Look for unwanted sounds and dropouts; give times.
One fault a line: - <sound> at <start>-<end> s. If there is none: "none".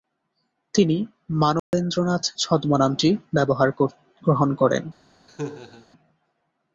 - dropout at 1.6-1.7 s
- laugh at 5.3-5.9 s